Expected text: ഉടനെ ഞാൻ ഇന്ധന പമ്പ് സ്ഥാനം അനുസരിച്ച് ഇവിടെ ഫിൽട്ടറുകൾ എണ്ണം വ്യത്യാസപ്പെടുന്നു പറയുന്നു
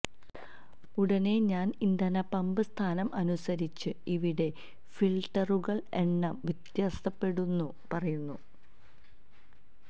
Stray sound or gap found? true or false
false